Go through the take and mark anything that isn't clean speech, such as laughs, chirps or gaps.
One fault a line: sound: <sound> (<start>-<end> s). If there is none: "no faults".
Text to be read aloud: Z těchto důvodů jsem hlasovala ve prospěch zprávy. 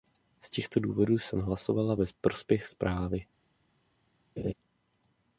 sound: laugh (4.4-4.5 s)